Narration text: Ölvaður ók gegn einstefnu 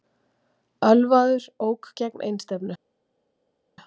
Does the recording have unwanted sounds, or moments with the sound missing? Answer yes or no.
no